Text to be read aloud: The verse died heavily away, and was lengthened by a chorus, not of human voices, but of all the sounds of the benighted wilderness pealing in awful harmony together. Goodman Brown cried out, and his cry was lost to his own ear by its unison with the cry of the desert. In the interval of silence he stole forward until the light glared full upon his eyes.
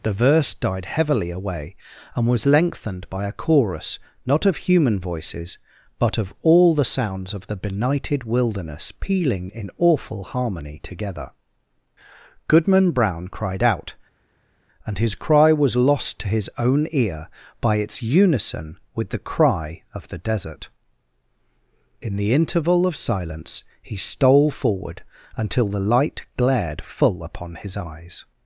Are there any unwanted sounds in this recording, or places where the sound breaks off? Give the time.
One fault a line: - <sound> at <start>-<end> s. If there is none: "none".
none